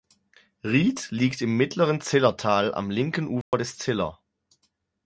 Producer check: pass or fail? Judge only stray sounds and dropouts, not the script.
fail